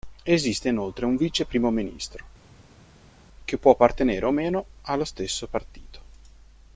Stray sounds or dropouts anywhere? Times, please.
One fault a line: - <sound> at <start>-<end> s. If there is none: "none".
none